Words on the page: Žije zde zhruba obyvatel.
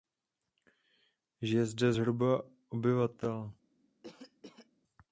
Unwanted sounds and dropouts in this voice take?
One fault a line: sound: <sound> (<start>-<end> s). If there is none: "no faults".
sound: cough (4.0-4.7 s)